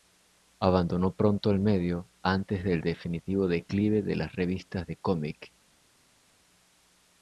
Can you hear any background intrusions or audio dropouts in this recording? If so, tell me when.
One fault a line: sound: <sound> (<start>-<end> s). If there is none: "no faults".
no faults